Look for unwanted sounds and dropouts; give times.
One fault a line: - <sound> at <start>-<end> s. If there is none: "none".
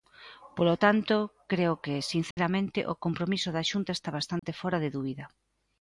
- dropout at 2.3-2.4 s
- dropout at 4.4-4.4 s